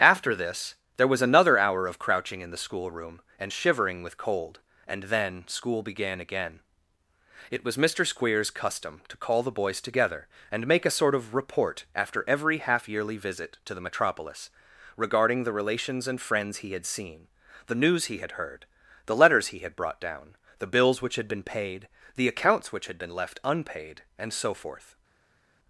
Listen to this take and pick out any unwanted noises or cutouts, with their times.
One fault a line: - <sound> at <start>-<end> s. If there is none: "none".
none